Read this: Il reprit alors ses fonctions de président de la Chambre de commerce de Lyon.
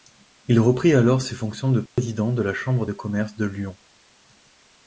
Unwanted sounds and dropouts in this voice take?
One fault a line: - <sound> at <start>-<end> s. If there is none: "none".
- dropout at 1.9-2.0 s